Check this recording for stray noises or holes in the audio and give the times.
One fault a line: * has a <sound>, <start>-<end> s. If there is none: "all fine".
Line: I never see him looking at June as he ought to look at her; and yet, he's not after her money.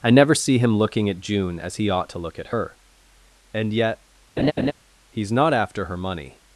* has a laugh, 4.4-4.7 s